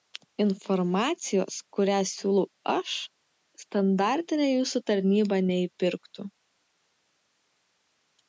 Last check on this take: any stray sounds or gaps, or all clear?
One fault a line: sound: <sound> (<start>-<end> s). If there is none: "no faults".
no faults